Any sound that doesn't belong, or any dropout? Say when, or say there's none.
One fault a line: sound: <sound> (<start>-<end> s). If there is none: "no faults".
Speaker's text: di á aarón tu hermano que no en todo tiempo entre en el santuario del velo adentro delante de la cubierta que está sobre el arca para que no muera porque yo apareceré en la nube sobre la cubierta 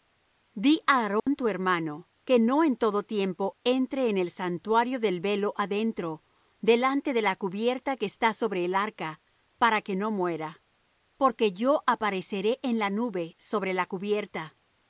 sound: dropout (1.2-1.3 s)